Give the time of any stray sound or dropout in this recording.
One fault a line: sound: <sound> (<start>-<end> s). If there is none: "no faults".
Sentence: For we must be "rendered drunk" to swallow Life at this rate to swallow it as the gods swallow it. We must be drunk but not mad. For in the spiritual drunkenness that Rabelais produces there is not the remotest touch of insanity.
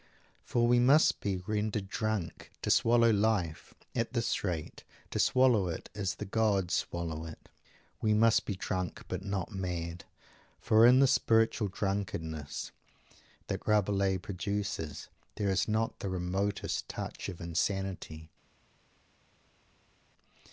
no faults